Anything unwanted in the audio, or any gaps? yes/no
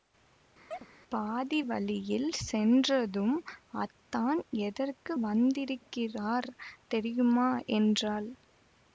yes